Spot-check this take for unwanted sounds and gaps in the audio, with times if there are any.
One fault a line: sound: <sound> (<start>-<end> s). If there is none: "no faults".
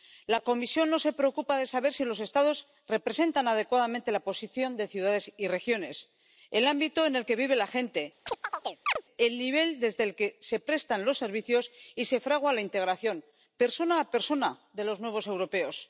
sound: chirp (8.3-9.0 s)